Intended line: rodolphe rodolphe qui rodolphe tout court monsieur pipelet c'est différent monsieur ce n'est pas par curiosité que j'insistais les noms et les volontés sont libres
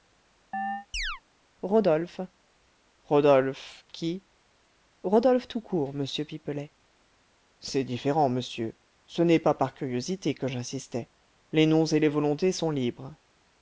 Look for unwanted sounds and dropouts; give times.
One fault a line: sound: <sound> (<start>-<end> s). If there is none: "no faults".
sound: chirp (0.5-1.2 s)